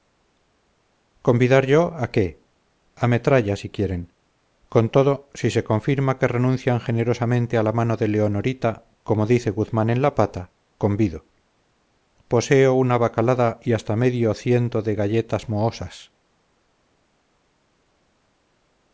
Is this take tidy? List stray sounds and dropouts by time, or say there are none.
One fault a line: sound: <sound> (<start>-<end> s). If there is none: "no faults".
no faults